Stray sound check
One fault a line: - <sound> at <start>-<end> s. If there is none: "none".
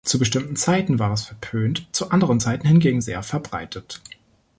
none